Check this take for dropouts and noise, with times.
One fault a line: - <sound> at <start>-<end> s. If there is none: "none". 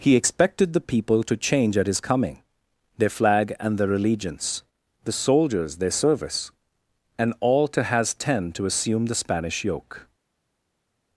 none